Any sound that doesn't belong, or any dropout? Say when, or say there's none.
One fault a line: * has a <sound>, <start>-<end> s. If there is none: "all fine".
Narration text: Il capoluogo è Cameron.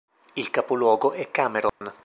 * has a dropout, 1.7-1.8 s